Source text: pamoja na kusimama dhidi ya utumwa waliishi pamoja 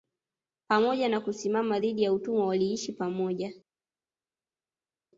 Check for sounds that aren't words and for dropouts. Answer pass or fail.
pass